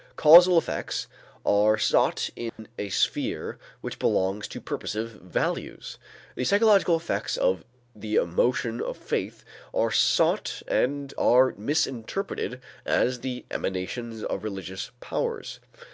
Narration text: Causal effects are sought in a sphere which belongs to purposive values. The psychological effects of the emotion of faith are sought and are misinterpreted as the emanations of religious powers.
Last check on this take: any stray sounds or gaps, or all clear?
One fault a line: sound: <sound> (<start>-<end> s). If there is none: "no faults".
sound: dropout (2.5-2.6 s)